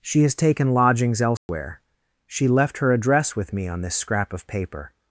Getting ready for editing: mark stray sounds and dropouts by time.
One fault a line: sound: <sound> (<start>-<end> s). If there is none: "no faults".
sound: dropout (1.4-1.5 s)